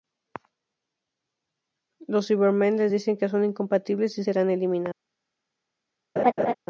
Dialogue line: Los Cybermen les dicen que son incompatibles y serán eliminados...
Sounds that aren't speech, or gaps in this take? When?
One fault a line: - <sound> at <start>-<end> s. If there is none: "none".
- laugh at 6.2-6.5 s